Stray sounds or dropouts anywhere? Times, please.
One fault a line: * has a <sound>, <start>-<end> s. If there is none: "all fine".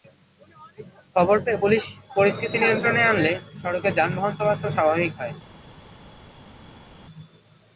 all fine